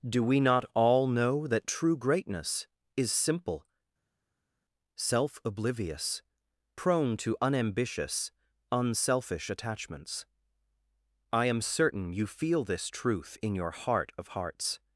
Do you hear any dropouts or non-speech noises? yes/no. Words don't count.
no